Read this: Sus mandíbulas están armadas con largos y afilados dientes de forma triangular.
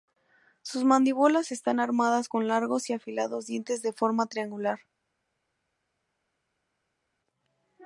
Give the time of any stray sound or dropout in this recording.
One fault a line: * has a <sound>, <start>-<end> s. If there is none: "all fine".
all fine